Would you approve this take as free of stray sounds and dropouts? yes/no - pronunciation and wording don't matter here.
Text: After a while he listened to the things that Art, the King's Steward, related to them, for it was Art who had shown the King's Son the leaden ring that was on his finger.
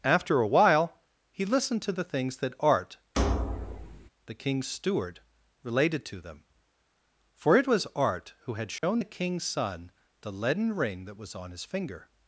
no